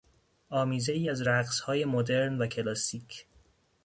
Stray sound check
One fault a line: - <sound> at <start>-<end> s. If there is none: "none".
none